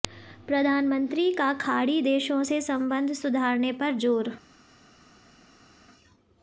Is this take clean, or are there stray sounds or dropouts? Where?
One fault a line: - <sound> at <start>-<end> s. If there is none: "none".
none